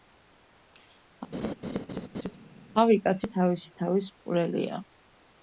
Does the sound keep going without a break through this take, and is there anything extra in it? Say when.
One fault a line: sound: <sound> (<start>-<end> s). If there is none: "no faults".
sound: laugh (1.3-2.4 s)